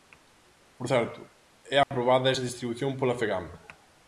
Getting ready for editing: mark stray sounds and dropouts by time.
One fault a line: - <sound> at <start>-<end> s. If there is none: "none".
- dropout at 1.8-1.9 s